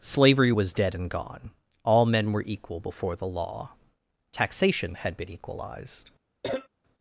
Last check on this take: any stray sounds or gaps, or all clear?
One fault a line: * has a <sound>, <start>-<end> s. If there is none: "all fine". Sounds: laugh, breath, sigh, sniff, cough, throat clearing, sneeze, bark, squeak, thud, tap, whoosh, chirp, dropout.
* has a cough, 6.4-6.7 s